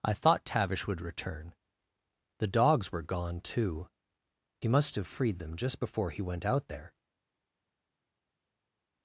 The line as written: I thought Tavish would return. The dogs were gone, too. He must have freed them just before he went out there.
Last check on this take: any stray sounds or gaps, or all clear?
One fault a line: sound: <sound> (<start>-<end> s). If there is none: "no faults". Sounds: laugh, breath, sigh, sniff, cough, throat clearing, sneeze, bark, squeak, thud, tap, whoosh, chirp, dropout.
no faults